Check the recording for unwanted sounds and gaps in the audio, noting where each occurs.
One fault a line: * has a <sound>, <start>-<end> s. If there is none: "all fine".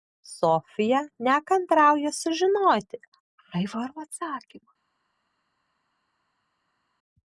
all fine